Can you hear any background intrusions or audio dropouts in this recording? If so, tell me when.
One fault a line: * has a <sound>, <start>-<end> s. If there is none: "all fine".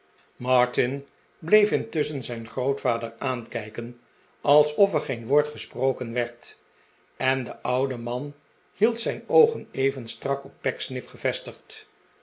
all fine